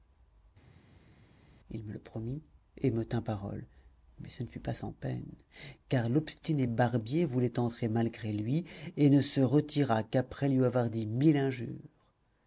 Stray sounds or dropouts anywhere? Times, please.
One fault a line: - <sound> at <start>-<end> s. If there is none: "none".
none